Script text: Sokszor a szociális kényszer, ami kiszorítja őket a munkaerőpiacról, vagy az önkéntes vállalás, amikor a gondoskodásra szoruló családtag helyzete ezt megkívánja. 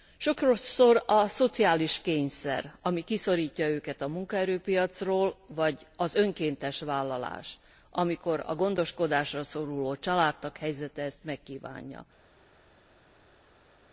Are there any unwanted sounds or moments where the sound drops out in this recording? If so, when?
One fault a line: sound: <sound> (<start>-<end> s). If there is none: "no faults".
no faults